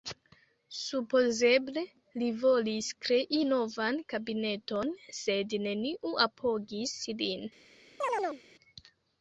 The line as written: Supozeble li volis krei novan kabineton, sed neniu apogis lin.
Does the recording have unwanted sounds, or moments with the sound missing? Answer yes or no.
yes